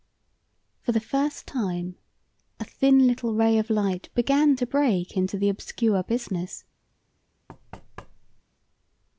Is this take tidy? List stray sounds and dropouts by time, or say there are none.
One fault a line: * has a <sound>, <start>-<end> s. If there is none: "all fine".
* has a thud, 7.5-8.4 s